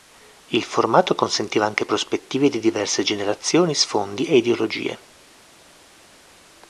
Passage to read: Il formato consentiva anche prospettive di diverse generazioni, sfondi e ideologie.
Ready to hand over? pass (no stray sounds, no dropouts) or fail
pass